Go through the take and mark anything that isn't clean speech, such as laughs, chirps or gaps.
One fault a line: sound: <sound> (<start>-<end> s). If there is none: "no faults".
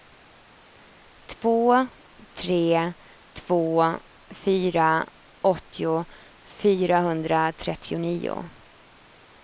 no faults